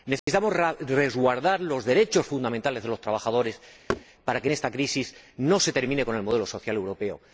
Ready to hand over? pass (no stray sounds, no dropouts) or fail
fail